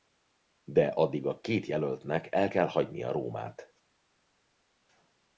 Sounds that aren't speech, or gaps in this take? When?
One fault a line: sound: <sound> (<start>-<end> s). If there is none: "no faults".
no faults